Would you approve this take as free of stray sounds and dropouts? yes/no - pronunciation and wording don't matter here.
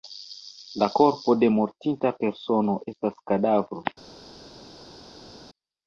yes